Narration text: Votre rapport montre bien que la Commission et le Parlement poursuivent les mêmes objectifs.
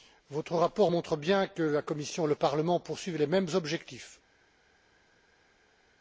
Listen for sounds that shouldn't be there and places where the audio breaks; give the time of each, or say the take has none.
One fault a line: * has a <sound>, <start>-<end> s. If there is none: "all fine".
all fine